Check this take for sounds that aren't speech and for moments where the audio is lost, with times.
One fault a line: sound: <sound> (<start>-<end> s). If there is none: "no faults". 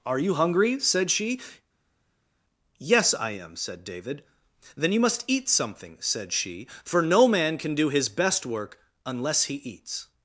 no faults